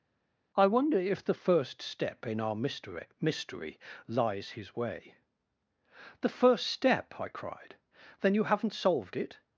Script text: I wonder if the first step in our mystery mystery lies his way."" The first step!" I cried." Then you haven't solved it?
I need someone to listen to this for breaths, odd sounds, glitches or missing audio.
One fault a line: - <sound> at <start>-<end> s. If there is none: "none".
none